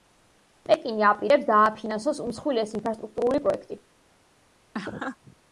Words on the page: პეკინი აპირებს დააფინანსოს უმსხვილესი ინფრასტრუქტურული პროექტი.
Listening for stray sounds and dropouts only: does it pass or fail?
fail